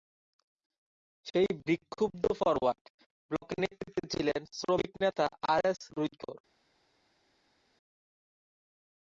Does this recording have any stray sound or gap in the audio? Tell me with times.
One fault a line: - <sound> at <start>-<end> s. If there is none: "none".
none